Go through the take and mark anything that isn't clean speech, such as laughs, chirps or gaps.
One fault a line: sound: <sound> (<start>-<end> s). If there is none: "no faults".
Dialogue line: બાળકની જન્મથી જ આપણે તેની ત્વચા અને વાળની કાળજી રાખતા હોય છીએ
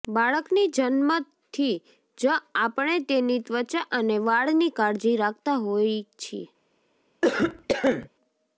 sound: cough (7.2-8.1 s)